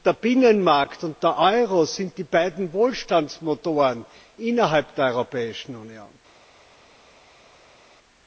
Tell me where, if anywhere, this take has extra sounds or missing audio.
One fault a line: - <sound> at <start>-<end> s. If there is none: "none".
none